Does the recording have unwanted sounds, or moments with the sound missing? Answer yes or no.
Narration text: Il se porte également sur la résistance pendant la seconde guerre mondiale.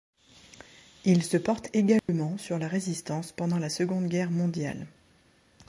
yes